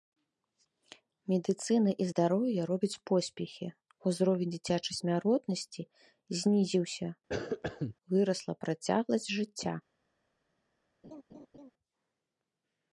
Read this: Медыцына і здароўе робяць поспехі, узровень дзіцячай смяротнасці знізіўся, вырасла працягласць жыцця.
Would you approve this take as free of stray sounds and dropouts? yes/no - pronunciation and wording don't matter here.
no